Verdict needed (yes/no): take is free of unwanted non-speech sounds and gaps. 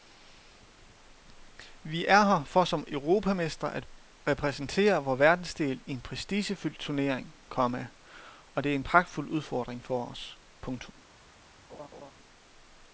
no